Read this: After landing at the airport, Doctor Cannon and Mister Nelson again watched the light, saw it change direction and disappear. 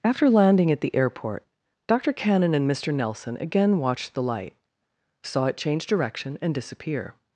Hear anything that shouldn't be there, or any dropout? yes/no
no